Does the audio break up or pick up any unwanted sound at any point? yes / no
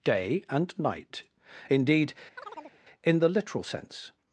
yes